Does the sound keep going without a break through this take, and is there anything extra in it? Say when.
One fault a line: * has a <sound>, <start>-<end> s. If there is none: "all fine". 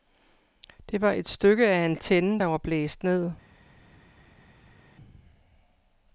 all fine